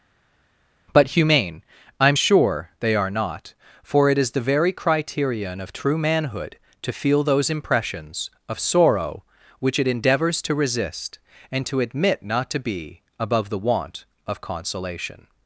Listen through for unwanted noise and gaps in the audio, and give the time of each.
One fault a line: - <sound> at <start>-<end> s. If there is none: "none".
none